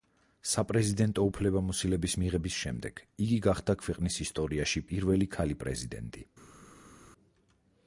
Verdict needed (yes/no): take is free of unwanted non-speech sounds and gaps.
yes